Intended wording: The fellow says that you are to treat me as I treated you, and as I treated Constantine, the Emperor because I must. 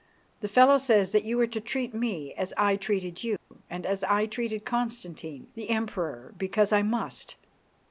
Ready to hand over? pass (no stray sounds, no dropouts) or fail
fail